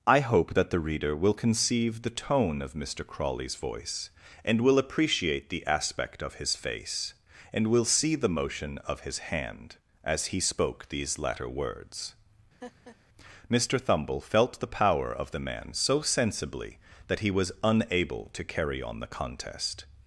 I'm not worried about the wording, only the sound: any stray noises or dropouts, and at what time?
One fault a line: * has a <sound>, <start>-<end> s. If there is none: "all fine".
* has a laugh, 12.6-13.0 s